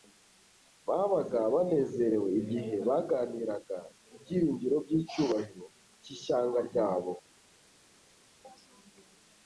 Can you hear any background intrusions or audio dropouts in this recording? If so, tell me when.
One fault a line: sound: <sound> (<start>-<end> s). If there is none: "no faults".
no faults